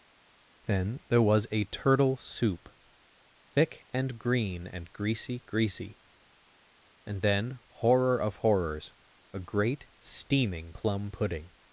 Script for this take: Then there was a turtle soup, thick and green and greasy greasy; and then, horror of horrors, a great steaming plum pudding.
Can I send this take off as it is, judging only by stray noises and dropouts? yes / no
yes